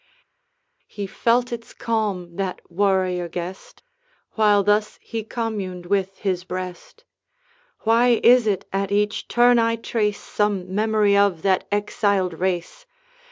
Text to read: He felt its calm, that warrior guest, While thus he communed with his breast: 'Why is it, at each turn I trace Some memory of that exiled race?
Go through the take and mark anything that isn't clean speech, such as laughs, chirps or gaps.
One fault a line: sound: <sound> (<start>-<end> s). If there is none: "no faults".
no faults